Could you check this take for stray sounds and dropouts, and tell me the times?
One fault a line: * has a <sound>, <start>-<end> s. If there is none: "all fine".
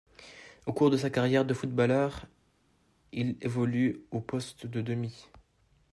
all fine